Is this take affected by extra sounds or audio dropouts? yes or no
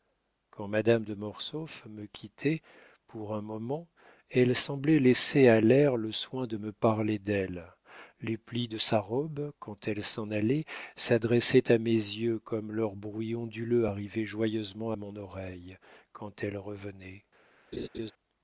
yes